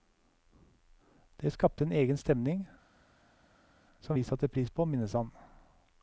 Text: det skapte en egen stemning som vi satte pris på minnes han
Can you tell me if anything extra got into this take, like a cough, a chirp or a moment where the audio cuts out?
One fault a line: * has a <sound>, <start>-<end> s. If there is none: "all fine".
all fine